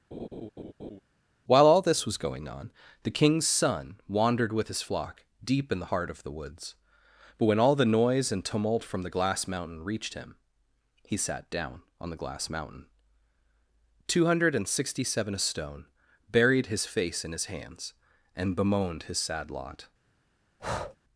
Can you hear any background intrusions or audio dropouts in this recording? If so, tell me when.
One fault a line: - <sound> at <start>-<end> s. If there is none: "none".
- laugh at 0.1-1.0 s
- breath at 20.6-21.0 s